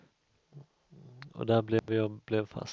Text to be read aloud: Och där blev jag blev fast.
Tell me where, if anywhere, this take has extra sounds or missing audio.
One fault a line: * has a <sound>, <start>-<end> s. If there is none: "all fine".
* has a dropout, 1.8-1.9 s